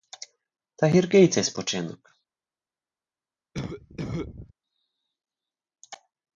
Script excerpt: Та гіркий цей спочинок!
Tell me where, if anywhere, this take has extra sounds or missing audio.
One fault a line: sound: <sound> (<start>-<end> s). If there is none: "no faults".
sound: cough (3.5-4.5 s)